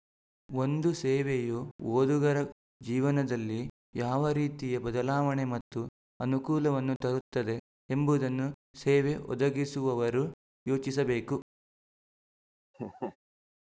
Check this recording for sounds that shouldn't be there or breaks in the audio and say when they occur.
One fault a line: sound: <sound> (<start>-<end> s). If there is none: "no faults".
sound: laugh (12.7-13.2 s)